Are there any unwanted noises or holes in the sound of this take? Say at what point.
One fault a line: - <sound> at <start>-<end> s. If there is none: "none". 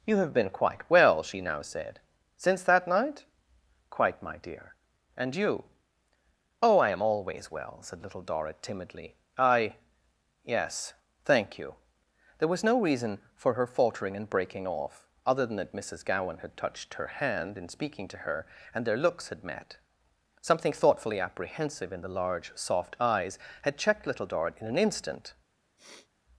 - sniff at 25.8-26.1 s